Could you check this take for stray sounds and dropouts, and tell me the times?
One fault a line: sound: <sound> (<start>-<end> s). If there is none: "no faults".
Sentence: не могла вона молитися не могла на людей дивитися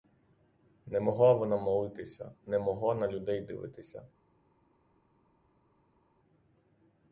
no faults